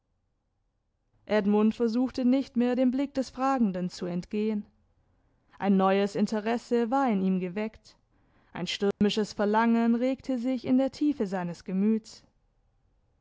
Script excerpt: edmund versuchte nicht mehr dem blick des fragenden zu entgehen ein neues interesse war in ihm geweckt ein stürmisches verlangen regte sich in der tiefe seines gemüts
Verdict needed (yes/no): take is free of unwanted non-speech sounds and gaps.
no